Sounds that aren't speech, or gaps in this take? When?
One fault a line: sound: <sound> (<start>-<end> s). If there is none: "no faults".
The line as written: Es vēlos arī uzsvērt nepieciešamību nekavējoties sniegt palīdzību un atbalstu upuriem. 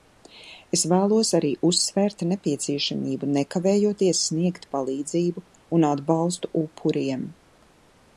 no faults